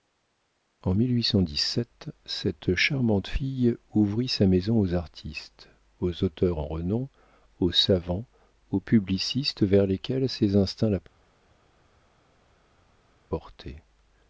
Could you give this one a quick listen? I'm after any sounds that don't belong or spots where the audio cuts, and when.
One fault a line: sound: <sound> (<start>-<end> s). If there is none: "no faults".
no faults